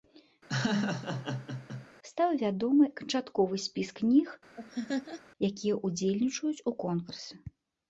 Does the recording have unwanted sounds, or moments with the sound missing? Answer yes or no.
yes